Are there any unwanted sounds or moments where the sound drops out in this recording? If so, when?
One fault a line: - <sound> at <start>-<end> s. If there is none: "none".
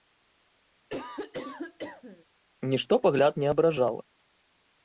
- cough at 0.9-2.3 s